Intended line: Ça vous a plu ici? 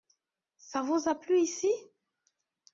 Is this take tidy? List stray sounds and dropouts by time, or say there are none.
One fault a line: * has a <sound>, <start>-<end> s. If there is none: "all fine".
all fine